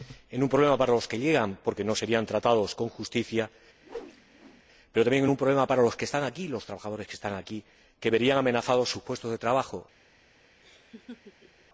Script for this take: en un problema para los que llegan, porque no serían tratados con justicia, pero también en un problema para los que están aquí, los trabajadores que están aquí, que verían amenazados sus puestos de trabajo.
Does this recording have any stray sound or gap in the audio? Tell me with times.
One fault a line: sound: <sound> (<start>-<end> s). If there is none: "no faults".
sound: whoosh (3.8-4.6 s)
sound: laugh (10.6-11.7 s)